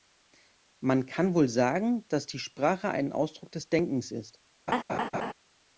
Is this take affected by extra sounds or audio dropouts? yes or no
yes